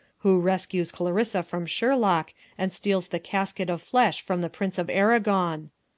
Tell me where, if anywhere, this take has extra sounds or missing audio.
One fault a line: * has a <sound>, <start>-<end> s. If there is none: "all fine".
all fine